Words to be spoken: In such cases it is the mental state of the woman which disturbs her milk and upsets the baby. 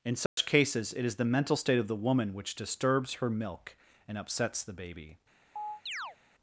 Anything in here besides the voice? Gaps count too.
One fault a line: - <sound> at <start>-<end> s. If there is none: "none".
- dropout at 0.3-0.4 s
- chirp at 5.6-6.2 s